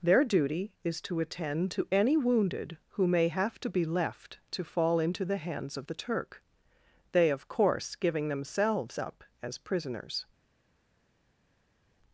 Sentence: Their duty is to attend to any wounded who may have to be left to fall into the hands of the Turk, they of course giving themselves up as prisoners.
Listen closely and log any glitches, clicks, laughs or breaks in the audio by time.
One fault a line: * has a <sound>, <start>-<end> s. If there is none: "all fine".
all fine